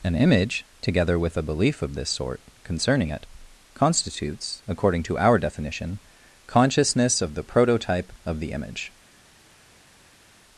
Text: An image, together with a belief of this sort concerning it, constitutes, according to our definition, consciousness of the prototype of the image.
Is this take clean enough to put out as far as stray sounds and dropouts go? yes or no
yes